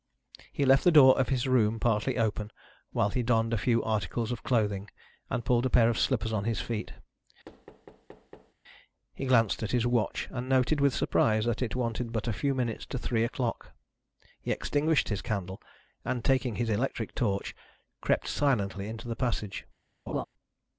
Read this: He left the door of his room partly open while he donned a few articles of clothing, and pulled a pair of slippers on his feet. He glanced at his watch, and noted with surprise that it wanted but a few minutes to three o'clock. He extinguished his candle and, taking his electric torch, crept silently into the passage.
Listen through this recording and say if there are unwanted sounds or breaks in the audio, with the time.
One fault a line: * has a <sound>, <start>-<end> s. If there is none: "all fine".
* has a thud, 7.5-8.5 s
* has a laugh, 20.1-20.3 s